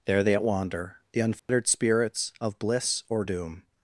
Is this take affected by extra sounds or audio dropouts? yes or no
yes